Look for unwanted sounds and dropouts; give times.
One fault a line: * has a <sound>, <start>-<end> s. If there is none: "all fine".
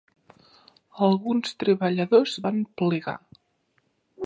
all fine